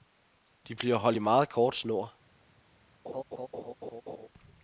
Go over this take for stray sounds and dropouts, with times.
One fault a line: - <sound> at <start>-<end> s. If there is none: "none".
- laugh at 3.0-4.3 s